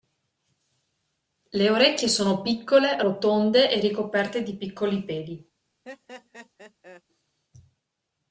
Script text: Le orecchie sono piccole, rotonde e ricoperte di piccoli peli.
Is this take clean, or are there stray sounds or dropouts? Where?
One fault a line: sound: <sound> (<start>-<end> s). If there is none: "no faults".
sound: laugh (5.8-7.0 s)